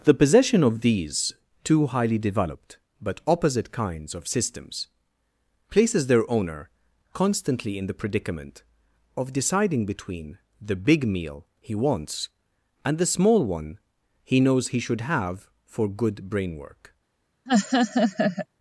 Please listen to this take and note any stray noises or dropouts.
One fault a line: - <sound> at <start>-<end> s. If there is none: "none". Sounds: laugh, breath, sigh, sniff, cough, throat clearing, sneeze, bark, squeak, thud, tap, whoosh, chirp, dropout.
- laugh at 17.5-18.5 s